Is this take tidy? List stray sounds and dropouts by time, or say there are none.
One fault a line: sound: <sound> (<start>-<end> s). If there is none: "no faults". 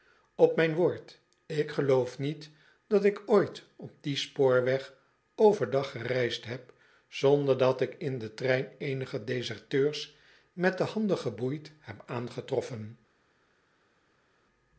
no faults